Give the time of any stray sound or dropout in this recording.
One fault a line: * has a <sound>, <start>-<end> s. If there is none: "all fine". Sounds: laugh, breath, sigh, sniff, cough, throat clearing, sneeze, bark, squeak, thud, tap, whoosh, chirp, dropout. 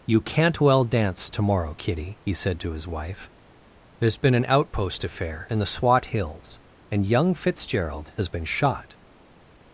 all fine